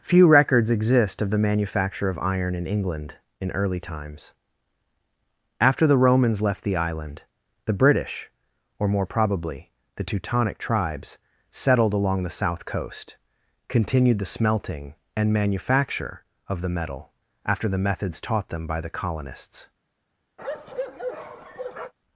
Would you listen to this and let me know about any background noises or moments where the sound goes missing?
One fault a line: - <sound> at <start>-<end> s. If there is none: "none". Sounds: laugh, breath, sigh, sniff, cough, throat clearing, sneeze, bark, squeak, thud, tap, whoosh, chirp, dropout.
- bark at 20.4-21.9 s